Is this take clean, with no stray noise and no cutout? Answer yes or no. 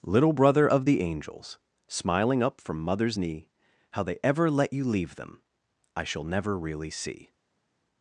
yes